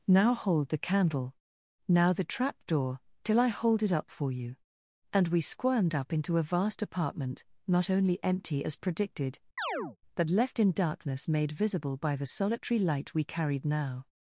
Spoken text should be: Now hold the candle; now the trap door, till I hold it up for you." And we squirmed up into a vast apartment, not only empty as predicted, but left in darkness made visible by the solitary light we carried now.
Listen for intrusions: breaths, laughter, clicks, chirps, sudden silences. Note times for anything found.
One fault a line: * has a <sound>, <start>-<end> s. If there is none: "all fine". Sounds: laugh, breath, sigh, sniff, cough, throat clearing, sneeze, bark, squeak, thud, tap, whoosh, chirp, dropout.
* has a chirp, 9.6-10.0 s